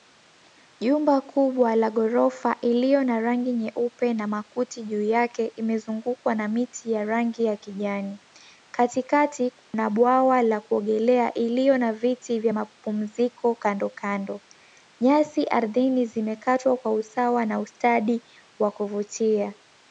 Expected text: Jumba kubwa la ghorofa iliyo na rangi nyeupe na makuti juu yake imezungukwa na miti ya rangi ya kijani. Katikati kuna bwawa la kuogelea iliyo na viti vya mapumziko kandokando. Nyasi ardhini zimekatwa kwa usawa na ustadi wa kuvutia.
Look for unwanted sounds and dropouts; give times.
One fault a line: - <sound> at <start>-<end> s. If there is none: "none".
- dropout at 9.6-9.7 s